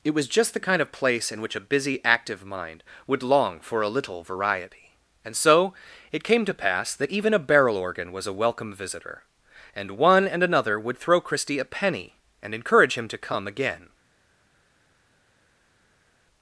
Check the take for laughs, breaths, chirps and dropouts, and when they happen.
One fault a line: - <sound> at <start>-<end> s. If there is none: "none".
none